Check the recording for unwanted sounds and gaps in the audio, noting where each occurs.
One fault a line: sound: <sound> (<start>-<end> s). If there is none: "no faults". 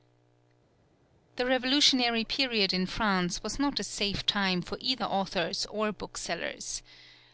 no faults